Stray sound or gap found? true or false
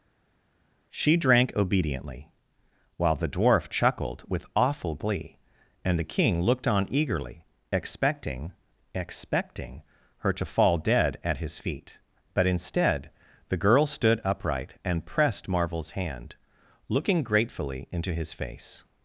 false